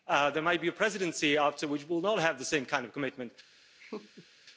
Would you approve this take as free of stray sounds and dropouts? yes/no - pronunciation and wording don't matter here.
no